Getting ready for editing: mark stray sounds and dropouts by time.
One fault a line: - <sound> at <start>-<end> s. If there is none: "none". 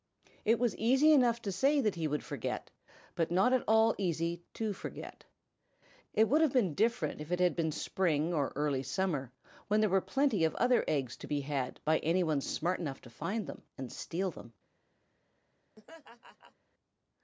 - laugh at 15.8-16.6 s